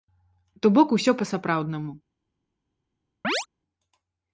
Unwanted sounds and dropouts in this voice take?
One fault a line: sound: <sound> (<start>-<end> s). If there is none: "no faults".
sound: chirp (3.2-3.5 s)